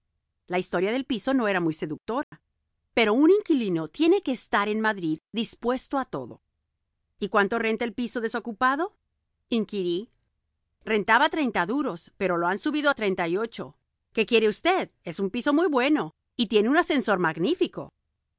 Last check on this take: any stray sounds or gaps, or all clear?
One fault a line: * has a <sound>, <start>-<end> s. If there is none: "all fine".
* has a dropout, 2.2-2.3 s